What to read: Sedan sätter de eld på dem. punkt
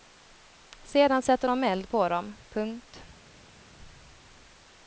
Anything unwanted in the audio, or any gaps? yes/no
no